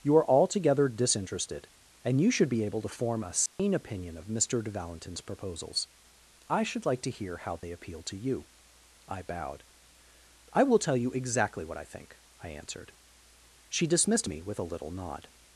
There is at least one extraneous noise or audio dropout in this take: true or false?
true